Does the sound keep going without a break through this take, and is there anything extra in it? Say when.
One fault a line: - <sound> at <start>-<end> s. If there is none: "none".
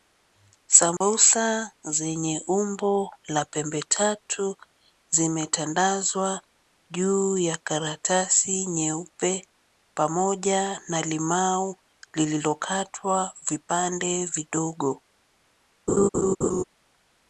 - dropout at 1.0-1.0 s
- laugh at 15.9-16.6 s